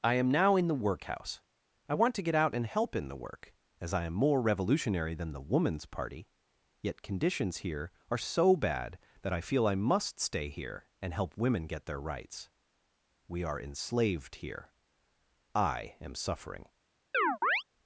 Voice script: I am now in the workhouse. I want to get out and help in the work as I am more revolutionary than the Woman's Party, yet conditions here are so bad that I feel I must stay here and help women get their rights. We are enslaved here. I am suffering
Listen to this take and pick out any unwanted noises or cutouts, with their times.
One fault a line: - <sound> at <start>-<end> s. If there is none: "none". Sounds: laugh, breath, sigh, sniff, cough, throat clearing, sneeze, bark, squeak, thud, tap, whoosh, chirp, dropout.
- chirp at 17.1-17.6 s